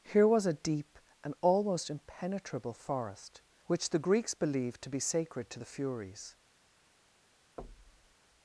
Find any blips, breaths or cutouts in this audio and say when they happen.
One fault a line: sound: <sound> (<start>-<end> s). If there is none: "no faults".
sound: thud (7.6-8.2 s)